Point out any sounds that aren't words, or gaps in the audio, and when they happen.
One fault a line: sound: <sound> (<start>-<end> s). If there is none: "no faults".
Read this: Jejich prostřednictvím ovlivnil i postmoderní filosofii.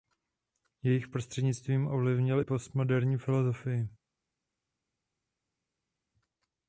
no faults